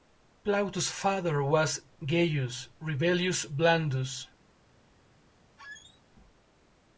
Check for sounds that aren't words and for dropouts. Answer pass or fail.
fail